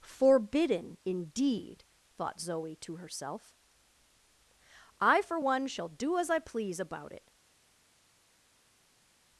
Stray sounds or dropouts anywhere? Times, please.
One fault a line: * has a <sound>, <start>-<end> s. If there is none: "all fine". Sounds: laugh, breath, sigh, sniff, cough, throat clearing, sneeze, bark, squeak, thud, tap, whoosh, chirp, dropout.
all fine